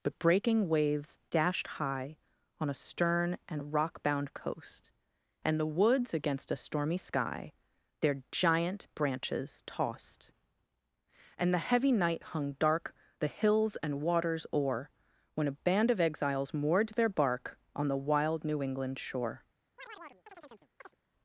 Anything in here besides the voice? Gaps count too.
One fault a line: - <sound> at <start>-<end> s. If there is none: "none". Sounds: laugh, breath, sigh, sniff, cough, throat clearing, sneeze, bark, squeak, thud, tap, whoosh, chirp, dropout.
- chirp at 19.8-21.0 s